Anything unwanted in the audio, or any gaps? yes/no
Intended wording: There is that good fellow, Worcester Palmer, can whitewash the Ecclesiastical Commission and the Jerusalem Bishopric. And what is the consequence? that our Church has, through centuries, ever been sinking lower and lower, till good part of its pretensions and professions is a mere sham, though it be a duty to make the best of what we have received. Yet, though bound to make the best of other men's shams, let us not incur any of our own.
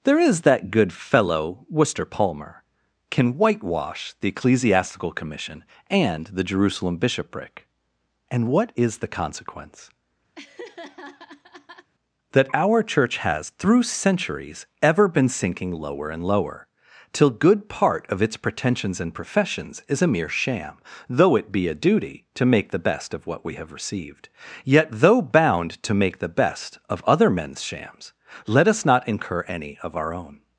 yes